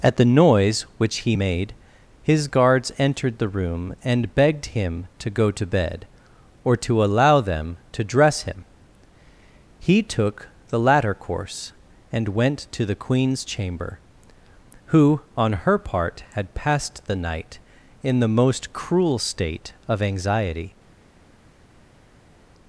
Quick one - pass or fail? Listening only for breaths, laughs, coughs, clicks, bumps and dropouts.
pass